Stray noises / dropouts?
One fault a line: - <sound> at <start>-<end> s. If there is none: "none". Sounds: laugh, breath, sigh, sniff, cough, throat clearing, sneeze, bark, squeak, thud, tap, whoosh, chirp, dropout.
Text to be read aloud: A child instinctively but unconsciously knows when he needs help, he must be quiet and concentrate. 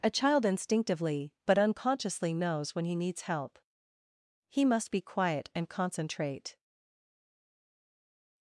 none